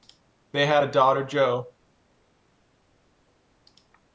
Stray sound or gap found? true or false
false